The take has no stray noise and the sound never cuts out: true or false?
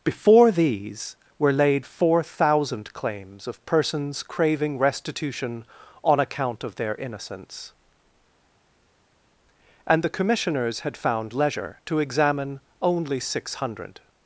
true